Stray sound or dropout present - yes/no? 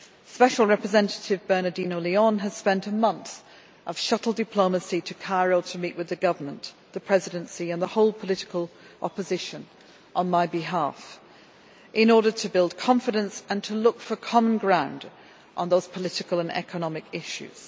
no